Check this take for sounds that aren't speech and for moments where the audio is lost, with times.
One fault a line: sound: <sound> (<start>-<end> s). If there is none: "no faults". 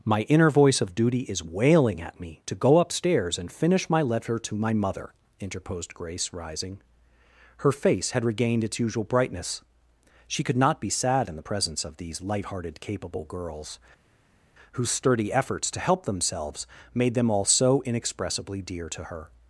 no faults